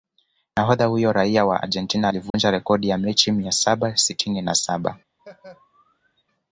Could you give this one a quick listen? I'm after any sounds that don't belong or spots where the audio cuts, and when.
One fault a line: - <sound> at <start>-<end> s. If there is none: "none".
- dropout at 2.3-2.3 s
- laugh at 5.2-6.2 s